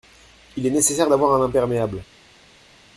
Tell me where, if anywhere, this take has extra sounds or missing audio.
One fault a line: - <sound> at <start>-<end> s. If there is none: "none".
none